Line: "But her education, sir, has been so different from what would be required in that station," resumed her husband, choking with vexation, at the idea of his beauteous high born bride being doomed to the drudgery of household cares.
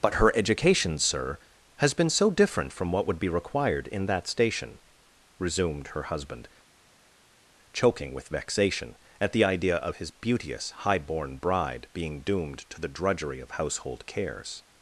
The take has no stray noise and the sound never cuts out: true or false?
true